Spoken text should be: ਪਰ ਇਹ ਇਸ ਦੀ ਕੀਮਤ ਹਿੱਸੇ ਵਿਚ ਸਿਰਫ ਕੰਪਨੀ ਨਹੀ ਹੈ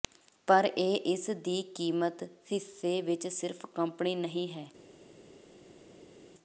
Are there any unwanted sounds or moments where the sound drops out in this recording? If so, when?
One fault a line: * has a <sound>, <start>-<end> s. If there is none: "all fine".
all fine